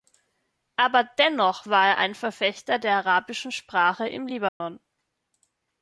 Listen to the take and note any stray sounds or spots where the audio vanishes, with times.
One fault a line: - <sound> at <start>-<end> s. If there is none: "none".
- dropout at 4.5-4.6 s